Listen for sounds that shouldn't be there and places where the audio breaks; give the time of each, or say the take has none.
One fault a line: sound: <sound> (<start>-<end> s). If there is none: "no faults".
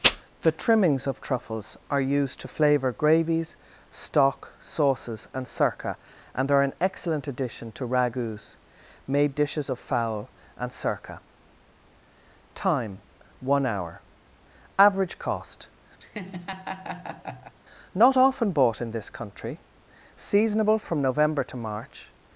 sound: laugh (16.0-17.5 s)